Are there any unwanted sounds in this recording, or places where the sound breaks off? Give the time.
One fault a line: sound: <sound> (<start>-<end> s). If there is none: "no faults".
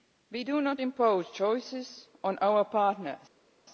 no faults